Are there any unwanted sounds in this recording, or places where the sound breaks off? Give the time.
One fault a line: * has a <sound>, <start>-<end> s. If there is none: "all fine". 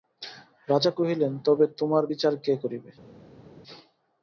all fine